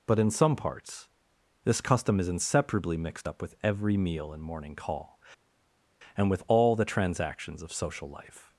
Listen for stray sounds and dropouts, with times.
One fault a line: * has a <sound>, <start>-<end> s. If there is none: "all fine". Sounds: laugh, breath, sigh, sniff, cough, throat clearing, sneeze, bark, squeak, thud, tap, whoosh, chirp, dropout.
all fine